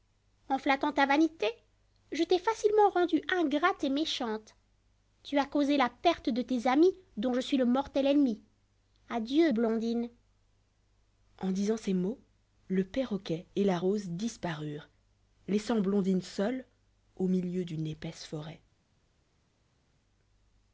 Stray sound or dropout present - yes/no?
no